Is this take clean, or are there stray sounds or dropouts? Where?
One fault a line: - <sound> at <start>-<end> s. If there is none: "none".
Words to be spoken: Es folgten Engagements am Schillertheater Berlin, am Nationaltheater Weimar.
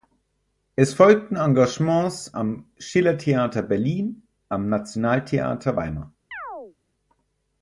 - chirp at 6.3-6.8 s